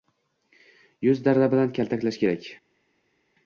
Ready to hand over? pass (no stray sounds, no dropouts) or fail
pass